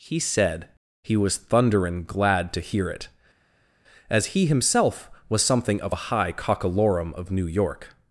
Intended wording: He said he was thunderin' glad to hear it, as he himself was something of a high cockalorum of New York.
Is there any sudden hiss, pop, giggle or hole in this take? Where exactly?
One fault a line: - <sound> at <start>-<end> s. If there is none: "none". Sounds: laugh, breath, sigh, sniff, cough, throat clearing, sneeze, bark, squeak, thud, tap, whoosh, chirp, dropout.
none